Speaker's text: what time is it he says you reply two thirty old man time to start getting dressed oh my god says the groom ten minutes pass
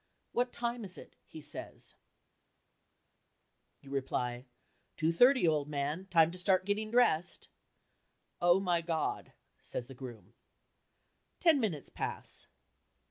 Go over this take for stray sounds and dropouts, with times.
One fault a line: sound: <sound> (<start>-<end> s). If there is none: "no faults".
no faults